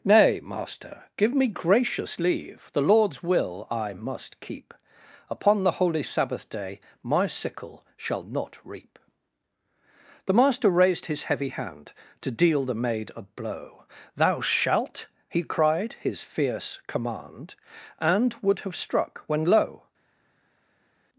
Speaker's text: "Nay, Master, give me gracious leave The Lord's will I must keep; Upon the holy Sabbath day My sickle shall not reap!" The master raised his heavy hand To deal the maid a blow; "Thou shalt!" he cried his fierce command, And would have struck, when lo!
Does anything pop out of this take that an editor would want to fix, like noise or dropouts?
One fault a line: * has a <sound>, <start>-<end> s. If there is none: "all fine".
all fine